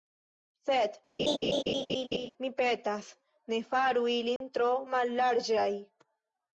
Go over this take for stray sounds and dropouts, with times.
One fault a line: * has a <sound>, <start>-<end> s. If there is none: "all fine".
* has a laugh, 1.2-2.3 s
* has a dropout, 4.4-4.4 s